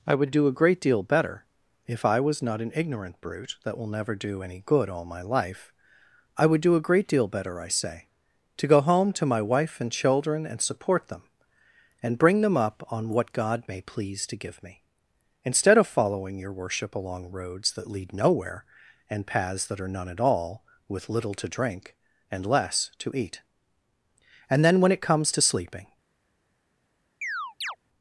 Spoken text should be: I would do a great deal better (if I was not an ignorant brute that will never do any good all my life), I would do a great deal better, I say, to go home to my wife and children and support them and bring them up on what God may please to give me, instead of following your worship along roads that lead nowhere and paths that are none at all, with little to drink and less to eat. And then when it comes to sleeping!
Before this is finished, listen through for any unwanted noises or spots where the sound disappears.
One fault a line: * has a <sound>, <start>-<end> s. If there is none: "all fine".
* has a chirp, 27.2-27.8 s